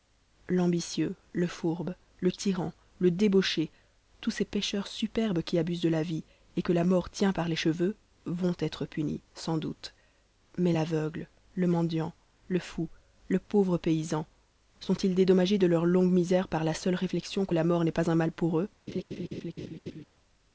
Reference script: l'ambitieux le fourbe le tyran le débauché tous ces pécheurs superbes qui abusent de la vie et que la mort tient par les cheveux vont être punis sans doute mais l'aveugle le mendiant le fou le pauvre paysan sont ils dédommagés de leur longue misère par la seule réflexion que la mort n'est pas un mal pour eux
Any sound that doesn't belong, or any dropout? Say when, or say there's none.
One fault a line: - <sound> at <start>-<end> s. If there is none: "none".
- laugh at 18.9-20.1 s